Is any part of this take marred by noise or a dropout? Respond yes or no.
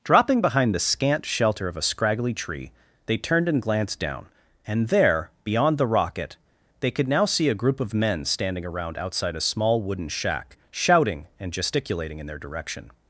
no